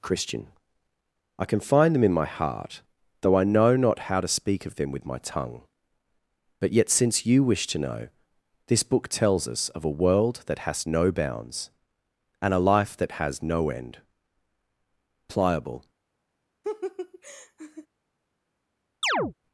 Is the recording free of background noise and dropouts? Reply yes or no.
no